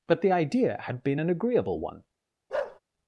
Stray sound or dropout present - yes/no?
yes